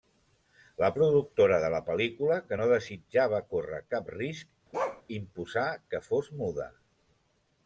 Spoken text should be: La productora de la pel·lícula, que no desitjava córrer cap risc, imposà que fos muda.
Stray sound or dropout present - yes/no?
yes